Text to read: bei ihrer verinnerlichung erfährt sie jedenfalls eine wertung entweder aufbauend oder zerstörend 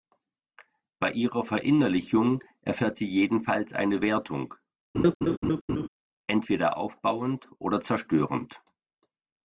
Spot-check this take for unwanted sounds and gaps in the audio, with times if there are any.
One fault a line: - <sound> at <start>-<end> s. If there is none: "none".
- laugh at 4.9-5.9 s